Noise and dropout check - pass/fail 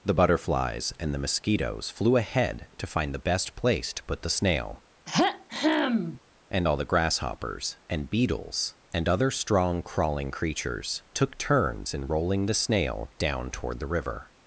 fail